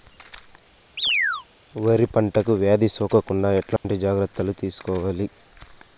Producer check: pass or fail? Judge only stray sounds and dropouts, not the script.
fail